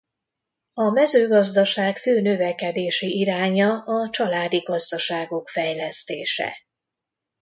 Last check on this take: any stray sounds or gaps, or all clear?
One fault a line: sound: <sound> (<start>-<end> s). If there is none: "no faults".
no faults